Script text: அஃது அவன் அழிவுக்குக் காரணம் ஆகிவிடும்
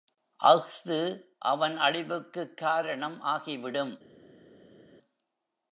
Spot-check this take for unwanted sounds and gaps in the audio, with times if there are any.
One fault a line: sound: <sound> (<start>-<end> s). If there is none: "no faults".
no faults